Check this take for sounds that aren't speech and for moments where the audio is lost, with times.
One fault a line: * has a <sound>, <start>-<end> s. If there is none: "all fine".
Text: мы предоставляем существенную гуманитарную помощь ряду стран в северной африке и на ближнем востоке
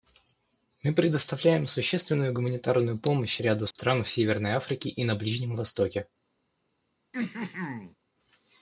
* has a dropout, 3.7-3.8 s
* has a throat clearing, 7.1-8.0 s